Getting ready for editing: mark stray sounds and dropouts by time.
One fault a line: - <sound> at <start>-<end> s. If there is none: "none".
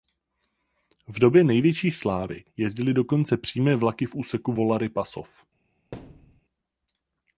- thud at 5.9-6.4 s